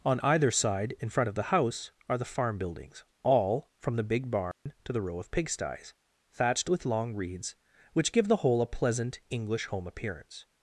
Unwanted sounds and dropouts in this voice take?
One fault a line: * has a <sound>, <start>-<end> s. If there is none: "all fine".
* has a dropout, 4.5-4.7 s